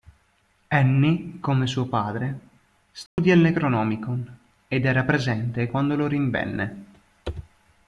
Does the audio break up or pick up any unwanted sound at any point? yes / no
yes